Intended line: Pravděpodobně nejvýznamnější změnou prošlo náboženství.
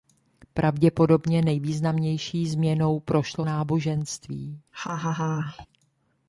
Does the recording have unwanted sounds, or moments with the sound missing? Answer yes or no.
yes